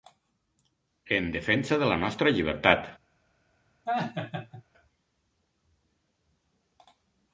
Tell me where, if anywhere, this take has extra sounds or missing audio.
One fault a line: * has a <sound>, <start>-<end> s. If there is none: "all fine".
* has a laugh, 3.9-4.6 s